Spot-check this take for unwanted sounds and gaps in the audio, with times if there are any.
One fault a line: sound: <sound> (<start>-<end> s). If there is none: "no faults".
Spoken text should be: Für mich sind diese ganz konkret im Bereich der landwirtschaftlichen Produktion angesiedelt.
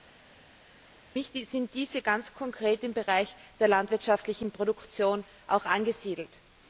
no faults